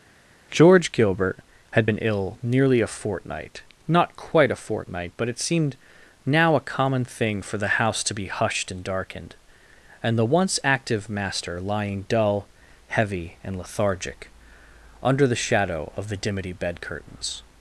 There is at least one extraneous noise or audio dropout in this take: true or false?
false